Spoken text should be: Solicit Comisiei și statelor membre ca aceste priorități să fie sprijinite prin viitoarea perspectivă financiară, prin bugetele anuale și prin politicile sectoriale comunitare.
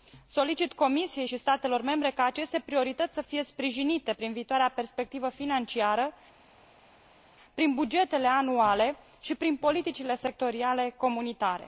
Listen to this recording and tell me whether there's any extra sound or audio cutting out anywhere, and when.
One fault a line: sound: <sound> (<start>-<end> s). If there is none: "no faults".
no faults